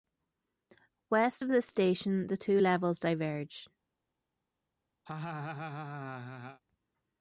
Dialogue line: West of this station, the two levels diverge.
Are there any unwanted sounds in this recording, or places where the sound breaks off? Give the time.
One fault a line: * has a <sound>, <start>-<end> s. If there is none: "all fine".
* has a laugh, 5.1-6.6 s